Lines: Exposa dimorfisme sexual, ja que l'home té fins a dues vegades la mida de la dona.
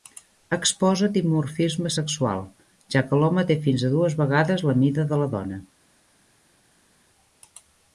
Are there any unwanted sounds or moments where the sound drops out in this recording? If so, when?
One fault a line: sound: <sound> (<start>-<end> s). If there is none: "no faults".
no faults